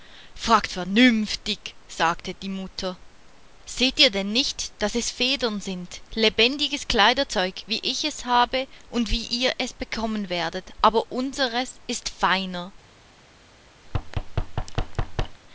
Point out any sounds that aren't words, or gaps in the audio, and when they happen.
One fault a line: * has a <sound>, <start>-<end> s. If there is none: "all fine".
* has a thud, 13.8-15.4 s